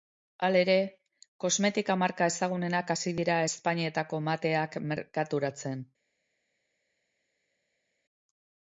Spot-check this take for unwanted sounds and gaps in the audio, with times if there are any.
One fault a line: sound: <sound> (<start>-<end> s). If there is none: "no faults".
no faults